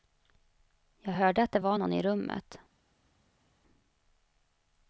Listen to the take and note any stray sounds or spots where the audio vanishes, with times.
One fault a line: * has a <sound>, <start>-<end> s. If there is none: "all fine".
all fine